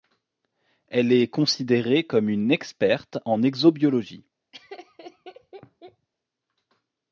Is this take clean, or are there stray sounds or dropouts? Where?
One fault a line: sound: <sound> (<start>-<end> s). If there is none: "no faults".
sound: laugh (4.5-6.1 s)